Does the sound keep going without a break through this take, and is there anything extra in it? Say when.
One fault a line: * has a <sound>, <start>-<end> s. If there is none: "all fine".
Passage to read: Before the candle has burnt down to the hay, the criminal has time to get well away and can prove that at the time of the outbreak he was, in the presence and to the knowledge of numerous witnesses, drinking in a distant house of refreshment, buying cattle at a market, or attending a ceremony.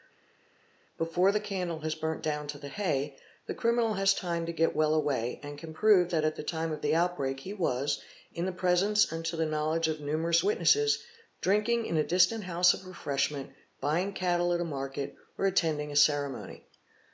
all fine